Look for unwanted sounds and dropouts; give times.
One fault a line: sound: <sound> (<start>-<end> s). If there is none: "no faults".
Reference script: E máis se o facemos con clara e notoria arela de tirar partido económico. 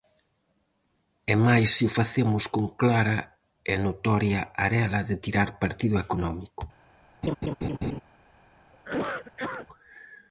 sound: laugh (7.2-8.0 s)
sound: cough (8.7-9.7 s)